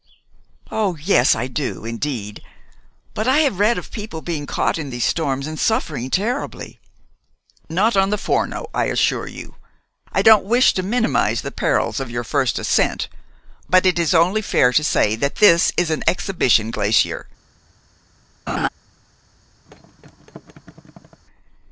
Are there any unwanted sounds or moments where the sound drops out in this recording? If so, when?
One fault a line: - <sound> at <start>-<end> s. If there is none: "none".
- laugh at 18.5-18.7 s
- thud at 19.7-21.2 s